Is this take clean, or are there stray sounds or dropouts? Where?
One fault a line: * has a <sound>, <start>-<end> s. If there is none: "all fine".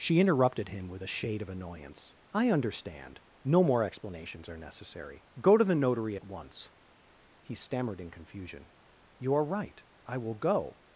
all fine